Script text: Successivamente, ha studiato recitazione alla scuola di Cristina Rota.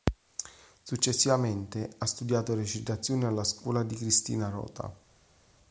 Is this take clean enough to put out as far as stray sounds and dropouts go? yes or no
yes